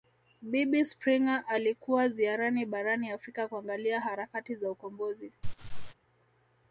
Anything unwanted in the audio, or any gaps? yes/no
yes